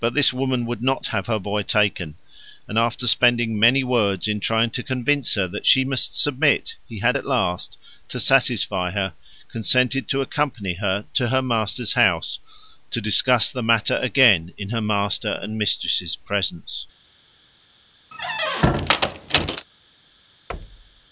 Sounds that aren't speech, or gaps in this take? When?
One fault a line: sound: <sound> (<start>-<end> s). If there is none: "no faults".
sound: squeak (18.1-19.7 s)
sound: thud (20.5-21.1 s)